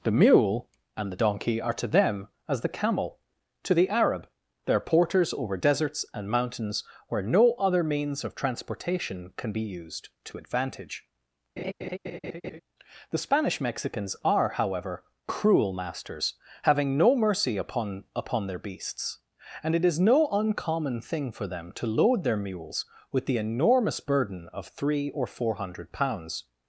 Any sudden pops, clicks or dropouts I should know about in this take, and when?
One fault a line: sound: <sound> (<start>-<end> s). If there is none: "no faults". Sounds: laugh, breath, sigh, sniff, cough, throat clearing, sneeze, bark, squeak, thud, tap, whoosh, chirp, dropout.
sound: laugh (11.6-12.6 s)